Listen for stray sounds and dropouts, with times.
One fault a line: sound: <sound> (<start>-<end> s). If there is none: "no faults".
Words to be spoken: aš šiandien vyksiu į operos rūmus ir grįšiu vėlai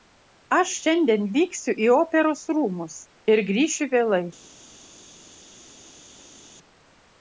no faults